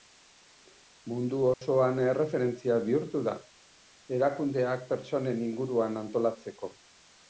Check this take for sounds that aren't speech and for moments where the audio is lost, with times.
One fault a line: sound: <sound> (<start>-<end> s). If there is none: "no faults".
sound: dropout (1.5-1.6 s)